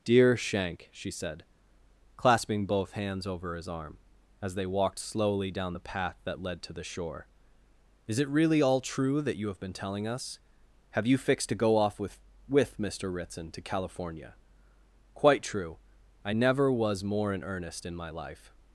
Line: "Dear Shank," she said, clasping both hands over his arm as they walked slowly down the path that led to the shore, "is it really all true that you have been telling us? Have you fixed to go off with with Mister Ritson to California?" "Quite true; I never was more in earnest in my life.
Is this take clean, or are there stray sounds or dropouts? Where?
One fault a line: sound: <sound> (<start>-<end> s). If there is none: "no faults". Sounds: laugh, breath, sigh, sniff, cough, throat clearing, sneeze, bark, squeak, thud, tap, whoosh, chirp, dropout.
no faults